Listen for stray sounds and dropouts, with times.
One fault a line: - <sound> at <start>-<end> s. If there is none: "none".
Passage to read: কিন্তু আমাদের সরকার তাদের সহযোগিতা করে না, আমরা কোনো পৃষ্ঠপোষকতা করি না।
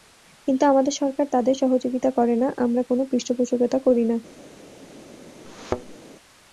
- thud at 5.4-6.0 s